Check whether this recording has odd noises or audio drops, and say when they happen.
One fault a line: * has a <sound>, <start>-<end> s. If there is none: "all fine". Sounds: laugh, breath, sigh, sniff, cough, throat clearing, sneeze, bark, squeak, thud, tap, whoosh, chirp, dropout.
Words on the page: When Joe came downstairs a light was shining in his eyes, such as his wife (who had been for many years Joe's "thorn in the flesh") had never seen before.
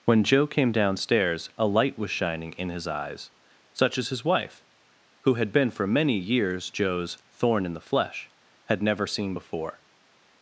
all fine